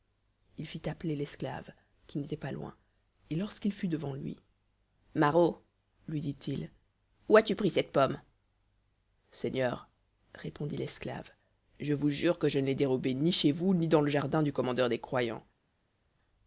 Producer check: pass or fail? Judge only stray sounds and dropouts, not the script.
pass